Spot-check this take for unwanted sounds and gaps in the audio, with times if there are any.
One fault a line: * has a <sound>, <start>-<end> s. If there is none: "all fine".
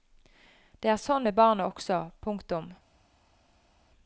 all fine